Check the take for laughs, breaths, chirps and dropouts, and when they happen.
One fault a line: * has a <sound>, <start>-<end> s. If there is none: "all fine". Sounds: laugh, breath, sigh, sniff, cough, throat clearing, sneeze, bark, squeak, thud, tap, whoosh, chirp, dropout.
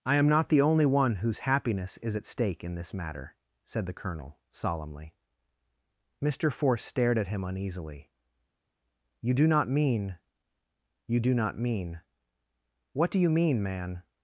all fine